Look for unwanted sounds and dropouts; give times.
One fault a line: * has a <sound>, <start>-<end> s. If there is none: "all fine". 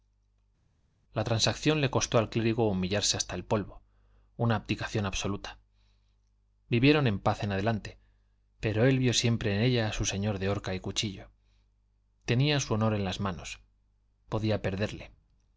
all fine